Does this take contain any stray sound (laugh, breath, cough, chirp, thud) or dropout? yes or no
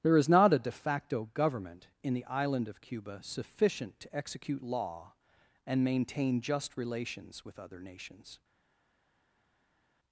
no